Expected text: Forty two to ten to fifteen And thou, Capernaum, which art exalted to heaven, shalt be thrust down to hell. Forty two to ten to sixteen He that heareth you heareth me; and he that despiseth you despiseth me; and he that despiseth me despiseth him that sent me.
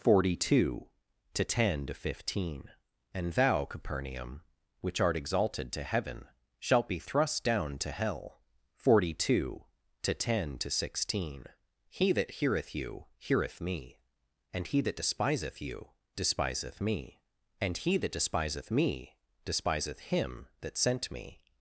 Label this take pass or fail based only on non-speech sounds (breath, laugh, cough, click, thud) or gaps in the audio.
pass